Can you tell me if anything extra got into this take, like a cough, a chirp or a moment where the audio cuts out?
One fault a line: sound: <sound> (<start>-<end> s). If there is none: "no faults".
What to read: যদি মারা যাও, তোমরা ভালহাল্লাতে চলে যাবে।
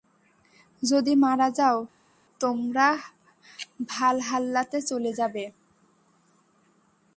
no faults